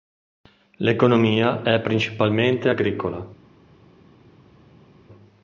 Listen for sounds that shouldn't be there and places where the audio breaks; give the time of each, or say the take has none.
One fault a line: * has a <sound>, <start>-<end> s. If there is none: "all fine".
all fine